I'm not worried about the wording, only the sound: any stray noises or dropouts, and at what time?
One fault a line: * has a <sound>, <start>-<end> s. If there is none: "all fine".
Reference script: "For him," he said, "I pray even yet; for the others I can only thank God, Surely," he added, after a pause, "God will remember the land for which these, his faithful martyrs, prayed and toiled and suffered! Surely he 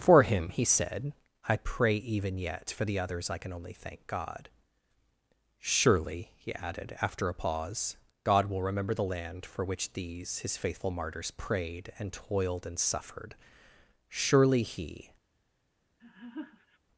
* has a laugh, 16.0-16.8 s